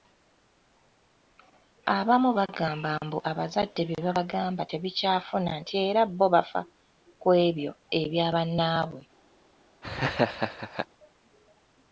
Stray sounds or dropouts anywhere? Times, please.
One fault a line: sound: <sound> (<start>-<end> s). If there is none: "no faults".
sound: laugh (9.8-10.9 s)